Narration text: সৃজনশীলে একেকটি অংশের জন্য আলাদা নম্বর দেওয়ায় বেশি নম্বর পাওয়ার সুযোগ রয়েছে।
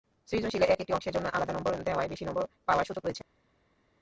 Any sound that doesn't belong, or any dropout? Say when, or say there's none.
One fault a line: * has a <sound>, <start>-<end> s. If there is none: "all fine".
all fine